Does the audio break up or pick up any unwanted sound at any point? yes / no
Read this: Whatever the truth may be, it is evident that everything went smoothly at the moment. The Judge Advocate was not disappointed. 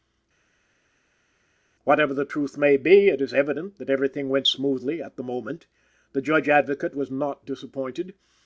no